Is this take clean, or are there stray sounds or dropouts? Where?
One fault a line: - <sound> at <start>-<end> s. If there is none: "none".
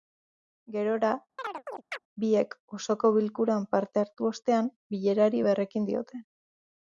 - chirp at 1.4-2.0 s